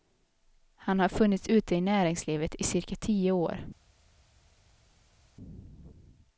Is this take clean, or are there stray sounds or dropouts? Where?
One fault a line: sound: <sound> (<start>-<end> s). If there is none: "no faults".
no faults